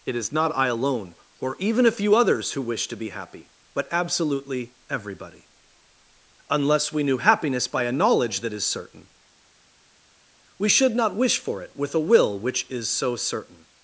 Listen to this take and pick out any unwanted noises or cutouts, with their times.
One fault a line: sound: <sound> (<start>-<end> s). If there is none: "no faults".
no faults